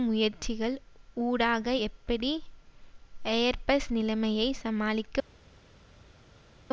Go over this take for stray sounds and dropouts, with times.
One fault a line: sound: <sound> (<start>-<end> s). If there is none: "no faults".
no faults